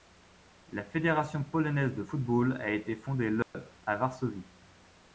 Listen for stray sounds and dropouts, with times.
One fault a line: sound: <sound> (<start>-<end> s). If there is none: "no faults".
sound: dropout (3.4-3.5 s)